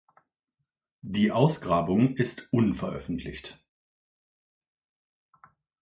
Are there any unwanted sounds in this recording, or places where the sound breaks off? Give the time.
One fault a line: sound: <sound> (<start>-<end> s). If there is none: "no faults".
no faults